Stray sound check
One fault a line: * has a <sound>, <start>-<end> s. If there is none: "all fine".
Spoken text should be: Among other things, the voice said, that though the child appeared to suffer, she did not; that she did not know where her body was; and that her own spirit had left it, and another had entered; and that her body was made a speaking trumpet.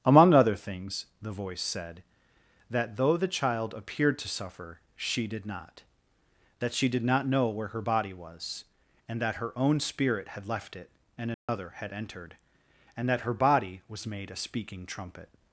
* has a dropout, 11.3-11.5 s